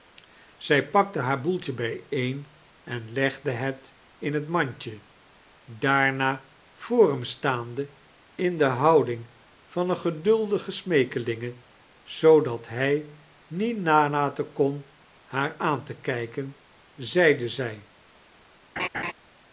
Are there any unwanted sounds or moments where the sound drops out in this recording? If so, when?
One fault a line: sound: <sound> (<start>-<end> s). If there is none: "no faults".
sound: laugh (18.8-19.1 s)